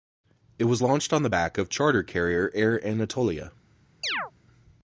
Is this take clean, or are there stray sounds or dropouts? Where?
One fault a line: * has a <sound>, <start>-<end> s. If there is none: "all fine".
* has a chirp, 4.0-4.3 s